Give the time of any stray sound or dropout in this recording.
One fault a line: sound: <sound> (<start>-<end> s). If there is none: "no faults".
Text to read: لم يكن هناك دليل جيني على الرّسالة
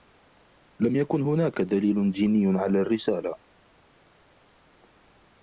no faults